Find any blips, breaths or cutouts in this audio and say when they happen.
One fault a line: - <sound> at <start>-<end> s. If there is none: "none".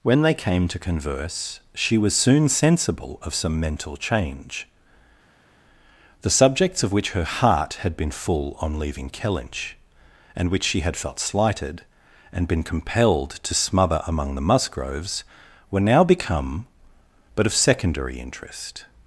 none